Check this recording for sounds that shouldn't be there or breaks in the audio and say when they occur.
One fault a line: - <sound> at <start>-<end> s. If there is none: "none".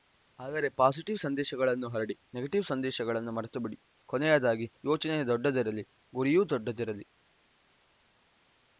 none